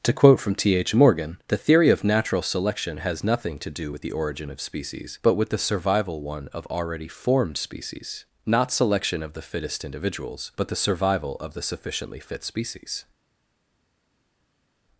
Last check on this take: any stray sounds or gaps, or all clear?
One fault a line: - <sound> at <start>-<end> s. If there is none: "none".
none